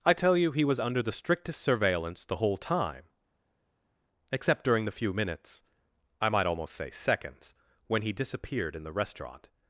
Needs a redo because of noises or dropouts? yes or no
no